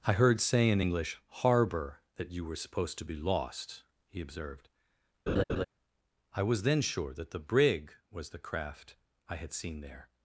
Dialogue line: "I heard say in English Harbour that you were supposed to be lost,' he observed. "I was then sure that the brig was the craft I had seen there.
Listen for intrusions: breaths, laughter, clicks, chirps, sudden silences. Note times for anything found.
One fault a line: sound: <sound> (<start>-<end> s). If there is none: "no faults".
sound: laugh (5.3-5.7 s)